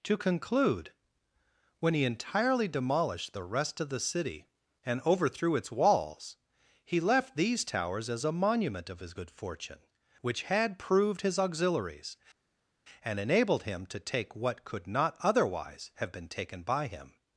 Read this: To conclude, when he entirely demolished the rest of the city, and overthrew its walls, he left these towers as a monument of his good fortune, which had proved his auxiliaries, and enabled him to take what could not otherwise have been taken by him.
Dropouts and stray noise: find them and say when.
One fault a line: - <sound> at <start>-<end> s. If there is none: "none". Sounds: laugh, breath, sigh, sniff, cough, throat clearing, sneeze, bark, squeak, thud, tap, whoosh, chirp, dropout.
none